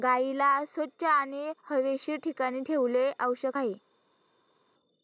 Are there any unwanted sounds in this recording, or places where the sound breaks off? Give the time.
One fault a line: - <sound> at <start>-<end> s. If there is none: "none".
none